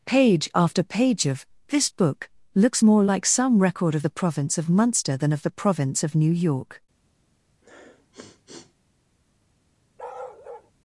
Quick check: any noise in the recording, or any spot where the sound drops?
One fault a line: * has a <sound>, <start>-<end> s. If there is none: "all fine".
* has a sniff, 7.6-8.8 s
* has a bark, 10.0-10.7 s